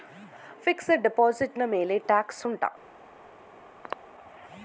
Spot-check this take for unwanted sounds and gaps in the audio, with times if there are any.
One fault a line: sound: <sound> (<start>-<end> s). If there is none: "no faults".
sound: throat clearing (3.8-4.0 s)